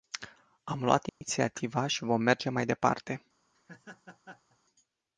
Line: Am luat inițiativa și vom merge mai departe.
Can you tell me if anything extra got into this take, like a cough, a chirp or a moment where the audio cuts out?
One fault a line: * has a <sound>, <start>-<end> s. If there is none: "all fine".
* has a dropout, 1.1-1.2 s
* has a laugh, 3.5-4.6 s